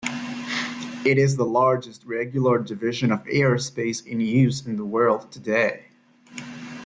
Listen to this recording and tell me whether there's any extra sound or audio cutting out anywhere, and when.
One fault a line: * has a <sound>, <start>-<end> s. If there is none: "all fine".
all fine